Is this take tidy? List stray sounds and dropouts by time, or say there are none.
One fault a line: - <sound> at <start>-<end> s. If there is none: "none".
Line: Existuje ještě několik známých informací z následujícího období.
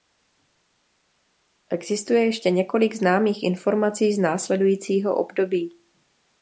none